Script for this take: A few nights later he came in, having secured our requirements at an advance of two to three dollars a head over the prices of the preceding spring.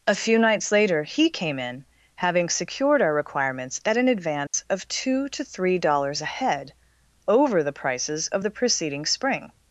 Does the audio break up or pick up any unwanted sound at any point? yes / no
yes